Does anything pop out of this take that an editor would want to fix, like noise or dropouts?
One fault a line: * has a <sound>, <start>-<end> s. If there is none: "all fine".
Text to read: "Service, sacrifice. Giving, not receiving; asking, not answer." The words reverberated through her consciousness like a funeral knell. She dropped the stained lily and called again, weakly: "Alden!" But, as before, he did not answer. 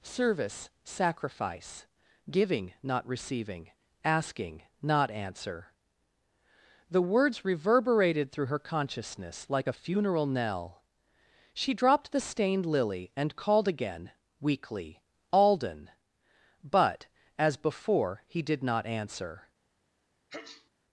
* has a sneeze, 20.3-20.7 s